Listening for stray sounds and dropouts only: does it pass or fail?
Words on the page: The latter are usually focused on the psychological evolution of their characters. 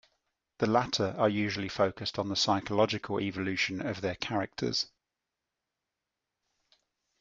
pass